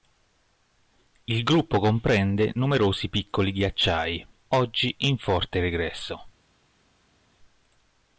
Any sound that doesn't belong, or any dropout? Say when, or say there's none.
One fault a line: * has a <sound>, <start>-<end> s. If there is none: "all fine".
all fine